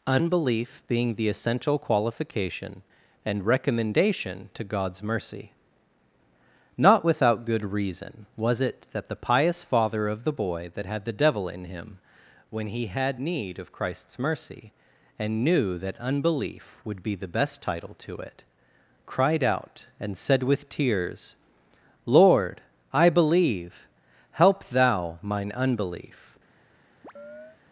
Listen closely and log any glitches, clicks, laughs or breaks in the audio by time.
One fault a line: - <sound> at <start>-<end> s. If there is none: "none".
- chirp at 27.0-27.6 s